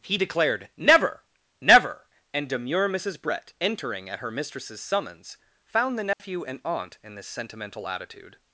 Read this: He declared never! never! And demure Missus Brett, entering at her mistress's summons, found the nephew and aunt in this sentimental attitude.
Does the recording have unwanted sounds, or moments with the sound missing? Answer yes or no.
yes